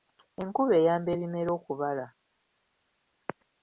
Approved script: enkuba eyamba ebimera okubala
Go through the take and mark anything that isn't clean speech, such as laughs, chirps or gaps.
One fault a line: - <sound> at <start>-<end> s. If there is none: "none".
none